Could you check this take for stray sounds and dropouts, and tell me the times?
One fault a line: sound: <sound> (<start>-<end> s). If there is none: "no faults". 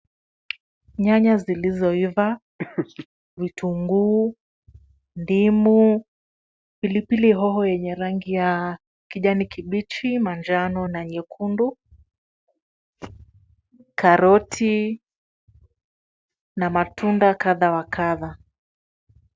sound: laugh (2.6-3.1 s)